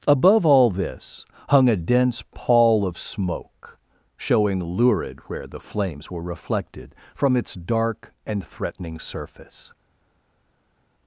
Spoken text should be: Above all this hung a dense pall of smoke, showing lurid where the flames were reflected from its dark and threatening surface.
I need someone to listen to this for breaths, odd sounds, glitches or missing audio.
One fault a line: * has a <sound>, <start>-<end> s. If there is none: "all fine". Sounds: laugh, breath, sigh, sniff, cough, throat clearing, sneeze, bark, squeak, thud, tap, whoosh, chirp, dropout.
all fine